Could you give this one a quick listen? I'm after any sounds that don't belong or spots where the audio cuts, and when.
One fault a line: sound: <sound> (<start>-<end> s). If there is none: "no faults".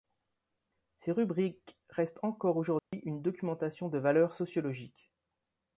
sound: dropout (2.8-2.9 s)